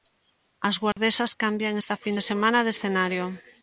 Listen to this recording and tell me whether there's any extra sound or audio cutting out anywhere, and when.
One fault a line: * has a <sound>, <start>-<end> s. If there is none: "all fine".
* has a dropout, 0.9-1.0 s